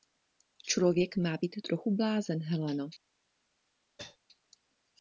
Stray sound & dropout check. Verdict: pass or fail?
fail